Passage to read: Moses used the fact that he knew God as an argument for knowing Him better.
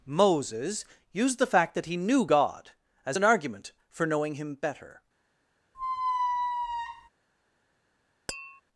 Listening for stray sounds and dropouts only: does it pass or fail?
fail